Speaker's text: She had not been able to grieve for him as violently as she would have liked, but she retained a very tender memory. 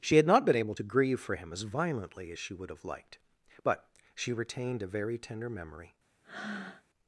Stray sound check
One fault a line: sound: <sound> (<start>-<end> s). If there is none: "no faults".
sound: breath (6.2-6.8 s)